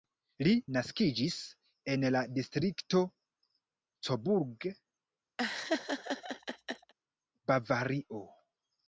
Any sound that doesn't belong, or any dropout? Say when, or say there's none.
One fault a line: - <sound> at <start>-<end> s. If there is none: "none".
- laugh at 5.4-6.9 s